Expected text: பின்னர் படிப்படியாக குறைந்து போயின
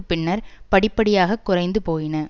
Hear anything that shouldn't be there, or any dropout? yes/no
no